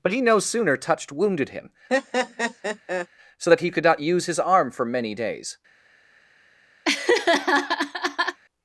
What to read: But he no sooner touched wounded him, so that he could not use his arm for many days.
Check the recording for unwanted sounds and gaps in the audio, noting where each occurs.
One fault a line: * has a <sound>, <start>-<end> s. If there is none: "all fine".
* has a laugh, 1.9-3.1 s
* has a laugh, 6.8-8.4 s